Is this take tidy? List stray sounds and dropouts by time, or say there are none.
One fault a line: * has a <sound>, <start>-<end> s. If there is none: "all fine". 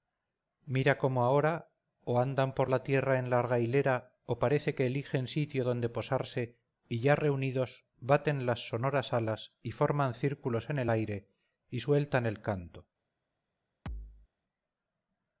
* has a thud, 13.9-14.3 s